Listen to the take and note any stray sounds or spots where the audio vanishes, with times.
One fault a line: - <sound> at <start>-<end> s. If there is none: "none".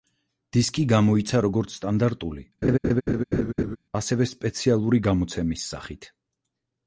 - laugh at 2.6-3.8 s